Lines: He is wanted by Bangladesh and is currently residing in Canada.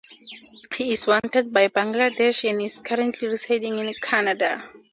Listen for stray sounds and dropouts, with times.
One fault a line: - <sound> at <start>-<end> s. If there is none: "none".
none